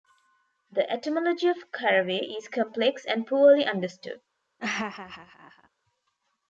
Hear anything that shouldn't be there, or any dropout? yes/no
yes